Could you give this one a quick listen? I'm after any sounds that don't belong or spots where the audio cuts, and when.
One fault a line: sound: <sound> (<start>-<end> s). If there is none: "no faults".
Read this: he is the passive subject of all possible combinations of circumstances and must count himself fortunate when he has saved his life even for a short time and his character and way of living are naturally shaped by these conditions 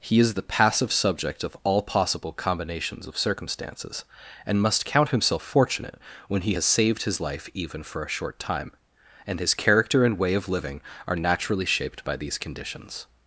no faults